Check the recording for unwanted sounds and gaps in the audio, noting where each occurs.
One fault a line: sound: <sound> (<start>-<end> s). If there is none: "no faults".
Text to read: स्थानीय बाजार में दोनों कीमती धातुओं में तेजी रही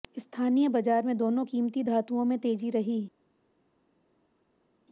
no faults